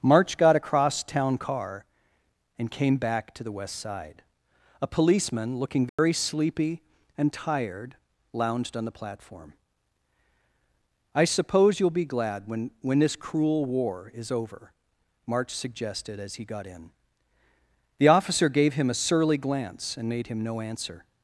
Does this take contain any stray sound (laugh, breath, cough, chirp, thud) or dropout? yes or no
yes